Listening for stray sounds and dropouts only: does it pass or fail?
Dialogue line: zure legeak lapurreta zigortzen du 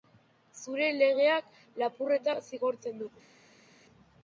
pass